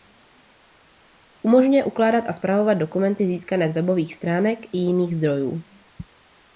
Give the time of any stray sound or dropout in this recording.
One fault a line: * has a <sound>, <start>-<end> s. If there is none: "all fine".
all fine